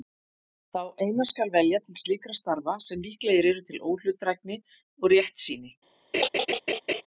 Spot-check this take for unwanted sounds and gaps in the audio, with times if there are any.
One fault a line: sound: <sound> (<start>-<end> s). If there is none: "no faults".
sound: laugh (6.1-7.0 s)